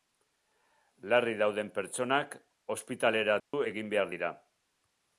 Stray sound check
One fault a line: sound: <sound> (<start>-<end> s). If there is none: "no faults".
sound: dropout (3.4-3.5 s)